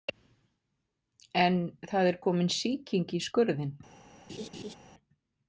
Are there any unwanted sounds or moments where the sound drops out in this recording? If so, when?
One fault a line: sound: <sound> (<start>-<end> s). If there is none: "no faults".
sound: laugh (4.3-4.8 s)